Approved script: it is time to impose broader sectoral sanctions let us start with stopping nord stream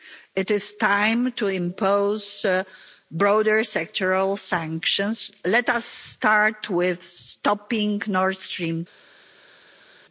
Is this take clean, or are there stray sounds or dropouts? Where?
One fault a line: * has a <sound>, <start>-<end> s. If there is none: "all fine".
all fine